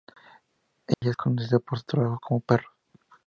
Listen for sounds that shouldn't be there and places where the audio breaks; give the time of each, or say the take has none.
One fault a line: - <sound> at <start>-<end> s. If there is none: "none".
- dropout at 0.9-1.0 s